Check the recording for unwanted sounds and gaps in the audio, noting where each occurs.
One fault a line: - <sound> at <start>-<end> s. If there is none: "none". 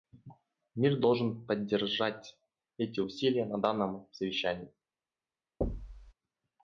- thud at 5.6-6.1 s